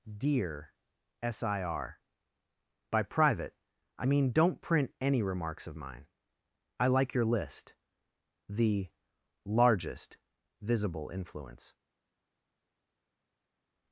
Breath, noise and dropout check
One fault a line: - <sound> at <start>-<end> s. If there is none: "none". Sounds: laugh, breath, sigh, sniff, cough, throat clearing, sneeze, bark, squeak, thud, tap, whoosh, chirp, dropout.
none